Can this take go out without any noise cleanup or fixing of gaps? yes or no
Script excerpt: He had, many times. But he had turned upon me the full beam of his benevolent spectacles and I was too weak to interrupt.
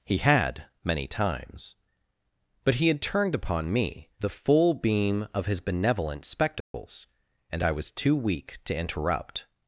no